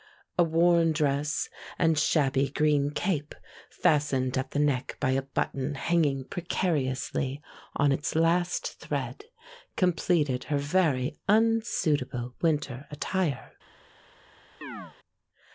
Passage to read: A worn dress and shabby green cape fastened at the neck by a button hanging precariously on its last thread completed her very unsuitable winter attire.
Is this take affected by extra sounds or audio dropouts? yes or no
yes